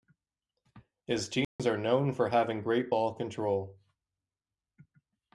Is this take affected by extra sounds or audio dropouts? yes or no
yes